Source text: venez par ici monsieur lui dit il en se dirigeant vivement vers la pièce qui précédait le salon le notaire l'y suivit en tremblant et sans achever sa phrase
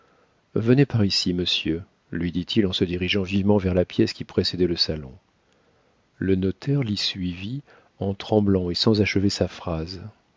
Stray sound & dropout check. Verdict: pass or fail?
pass